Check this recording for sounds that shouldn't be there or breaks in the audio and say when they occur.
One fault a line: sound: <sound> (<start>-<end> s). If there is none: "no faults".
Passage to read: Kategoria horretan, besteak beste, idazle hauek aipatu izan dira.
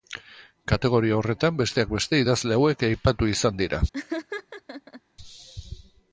sound: laugh (3.9-5.0 s)